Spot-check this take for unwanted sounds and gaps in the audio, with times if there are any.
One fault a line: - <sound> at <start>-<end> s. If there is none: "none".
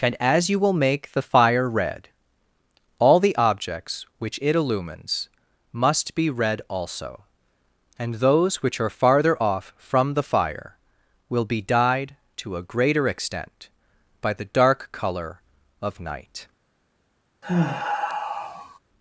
- sigh at 17.4-18.8 s